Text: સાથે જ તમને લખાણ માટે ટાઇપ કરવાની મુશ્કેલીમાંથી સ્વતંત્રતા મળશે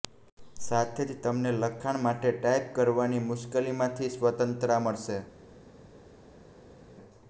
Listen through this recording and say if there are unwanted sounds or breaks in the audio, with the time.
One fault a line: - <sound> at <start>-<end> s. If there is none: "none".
none